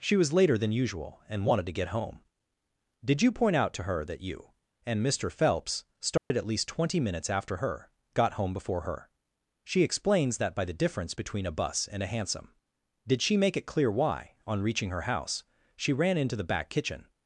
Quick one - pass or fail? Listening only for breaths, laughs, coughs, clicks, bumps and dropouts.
fail